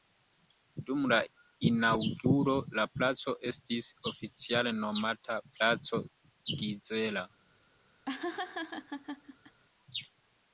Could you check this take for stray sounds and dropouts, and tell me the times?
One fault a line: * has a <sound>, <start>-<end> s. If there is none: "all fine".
* has a laugh, 8.1-9.6 s